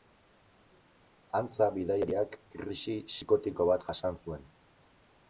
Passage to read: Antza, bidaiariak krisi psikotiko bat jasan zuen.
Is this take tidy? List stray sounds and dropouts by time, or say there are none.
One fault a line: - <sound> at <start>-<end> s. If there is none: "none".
none